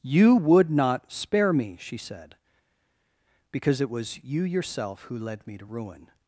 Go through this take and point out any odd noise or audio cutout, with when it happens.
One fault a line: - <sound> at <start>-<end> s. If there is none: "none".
none